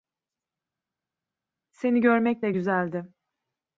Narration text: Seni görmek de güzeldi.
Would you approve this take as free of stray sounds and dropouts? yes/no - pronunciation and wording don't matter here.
yes